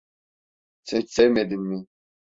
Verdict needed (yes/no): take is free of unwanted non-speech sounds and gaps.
yes